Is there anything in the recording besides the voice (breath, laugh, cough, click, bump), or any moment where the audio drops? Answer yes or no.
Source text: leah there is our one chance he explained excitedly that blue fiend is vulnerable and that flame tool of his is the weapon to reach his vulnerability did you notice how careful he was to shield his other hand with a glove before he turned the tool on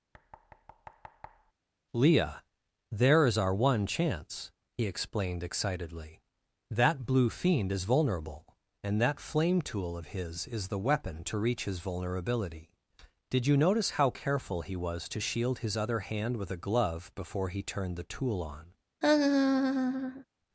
yes